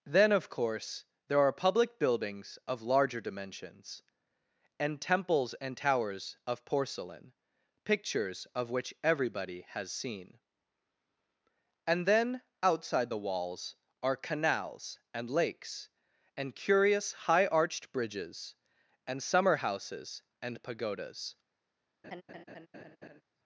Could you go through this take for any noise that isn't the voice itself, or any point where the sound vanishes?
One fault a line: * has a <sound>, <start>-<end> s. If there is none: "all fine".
* has a laugh, 22.0-23.2 s